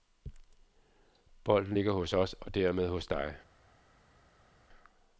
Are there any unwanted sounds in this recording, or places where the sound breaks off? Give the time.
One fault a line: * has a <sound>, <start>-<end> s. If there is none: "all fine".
all fine